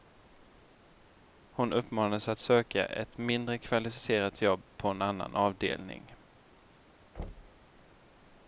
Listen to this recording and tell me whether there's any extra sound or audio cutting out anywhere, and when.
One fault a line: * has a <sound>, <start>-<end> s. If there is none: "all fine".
* has a thud, 7.2-7.7 s